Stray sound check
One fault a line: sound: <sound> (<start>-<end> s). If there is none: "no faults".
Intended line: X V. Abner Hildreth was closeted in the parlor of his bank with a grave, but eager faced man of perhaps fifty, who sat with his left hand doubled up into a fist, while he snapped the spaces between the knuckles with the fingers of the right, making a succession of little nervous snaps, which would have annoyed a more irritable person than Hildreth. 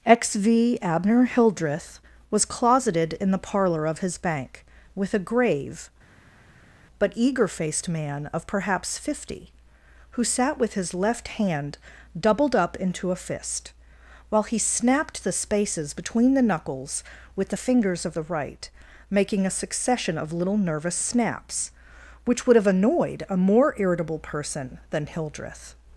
no faults